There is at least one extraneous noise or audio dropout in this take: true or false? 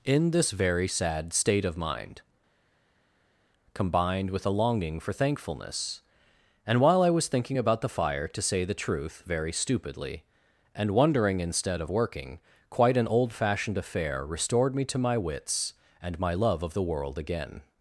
false